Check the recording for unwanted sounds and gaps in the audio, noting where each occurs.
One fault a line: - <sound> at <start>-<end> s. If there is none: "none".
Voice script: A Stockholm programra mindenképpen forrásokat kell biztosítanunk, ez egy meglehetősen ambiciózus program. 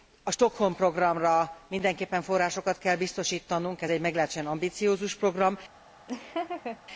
- laugh at 6.1-6.8 s